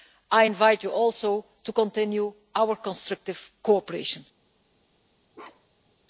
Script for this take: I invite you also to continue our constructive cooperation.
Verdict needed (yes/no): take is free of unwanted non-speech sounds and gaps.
no